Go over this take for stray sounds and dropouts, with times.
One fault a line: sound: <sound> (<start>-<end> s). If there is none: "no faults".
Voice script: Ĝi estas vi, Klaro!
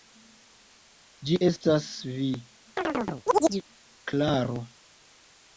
sound: chirp (2.8-3.6 s)